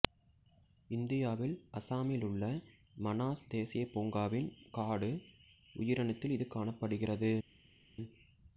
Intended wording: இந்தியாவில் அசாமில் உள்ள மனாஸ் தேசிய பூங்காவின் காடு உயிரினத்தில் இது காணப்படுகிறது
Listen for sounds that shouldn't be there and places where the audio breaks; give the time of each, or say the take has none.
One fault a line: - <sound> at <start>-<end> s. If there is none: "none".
none